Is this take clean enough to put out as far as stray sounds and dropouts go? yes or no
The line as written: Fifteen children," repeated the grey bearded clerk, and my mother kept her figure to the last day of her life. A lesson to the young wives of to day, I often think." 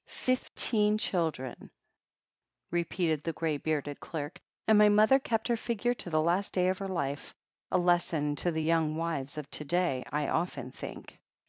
yes